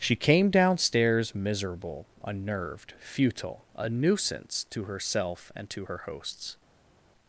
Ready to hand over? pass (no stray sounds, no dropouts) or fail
pass